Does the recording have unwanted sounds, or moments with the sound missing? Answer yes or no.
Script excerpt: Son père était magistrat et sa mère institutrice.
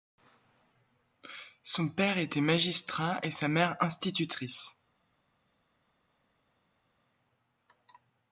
no